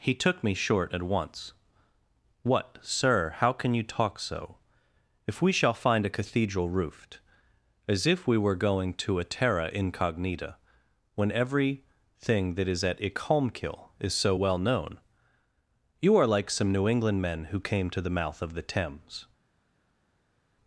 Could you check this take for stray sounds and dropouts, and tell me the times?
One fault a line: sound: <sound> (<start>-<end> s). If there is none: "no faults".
no faults